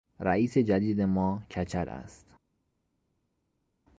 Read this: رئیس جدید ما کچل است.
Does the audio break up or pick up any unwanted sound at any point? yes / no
no